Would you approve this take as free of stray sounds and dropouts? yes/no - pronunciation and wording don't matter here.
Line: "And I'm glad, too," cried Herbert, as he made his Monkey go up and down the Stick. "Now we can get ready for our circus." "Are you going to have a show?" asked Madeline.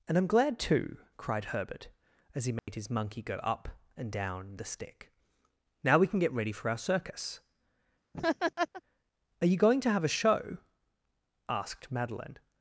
no